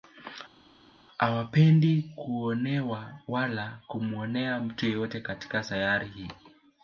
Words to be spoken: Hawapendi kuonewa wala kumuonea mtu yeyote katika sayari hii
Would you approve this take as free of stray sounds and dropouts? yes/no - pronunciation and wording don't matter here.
yes